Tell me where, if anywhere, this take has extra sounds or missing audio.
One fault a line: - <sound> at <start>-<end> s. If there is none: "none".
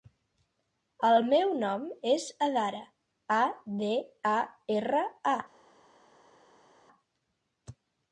none